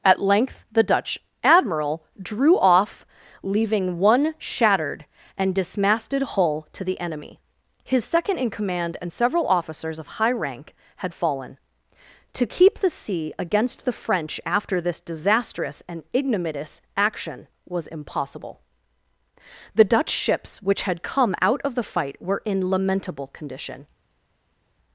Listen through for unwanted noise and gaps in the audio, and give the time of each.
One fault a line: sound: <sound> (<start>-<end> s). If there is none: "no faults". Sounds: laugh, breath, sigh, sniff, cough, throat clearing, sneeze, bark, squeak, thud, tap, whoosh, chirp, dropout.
no faults